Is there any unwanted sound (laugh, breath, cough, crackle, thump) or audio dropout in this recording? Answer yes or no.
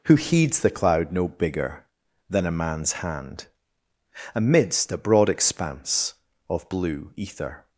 no